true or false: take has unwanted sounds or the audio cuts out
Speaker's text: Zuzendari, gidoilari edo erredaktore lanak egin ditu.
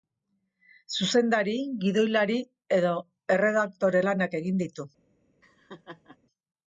true